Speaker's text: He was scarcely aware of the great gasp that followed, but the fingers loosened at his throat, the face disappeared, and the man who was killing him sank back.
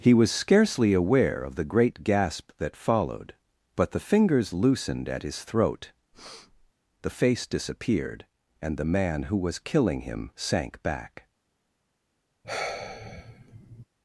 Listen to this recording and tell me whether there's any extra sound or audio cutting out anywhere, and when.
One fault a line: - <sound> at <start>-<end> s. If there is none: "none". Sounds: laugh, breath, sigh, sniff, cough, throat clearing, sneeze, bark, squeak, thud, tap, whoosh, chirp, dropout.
- breath at 6.1-6.7 s
- sigh at 12.4-13.9 s